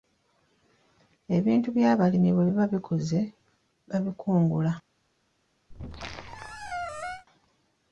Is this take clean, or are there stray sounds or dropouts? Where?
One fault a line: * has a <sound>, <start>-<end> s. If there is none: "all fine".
* has a squeak, 5.7-7.3 s